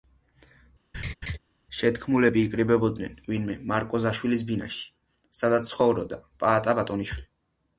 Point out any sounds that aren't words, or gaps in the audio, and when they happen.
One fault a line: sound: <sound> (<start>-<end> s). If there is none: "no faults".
sound: laugh (0.9-1.4 s)